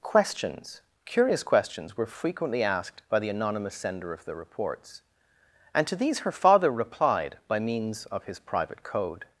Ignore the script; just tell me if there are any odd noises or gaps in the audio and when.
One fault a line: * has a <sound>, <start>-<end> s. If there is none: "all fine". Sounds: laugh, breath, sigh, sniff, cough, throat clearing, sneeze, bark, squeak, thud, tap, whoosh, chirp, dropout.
all fine